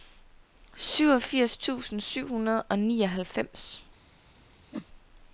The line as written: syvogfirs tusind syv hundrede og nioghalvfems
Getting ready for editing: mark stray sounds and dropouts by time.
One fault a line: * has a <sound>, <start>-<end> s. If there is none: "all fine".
* has a whoosh, 4.7-4.9 s